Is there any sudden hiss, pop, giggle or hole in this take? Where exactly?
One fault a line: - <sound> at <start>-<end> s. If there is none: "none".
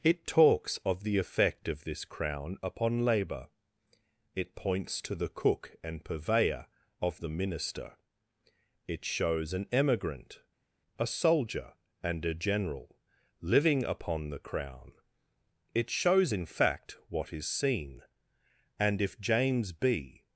none